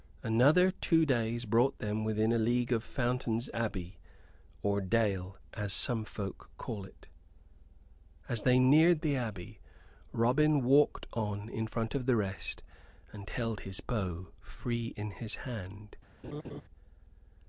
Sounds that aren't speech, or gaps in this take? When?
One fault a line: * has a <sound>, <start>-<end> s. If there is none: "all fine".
* has a laugh, 16.2-16.6 s